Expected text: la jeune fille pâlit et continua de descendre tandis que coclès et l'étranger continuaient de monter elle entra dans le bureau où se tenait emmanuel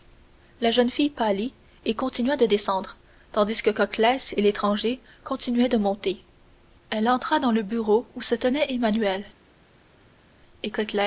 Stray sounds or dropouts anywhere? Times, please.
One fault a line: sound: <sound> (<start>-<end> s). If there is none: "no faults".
no faults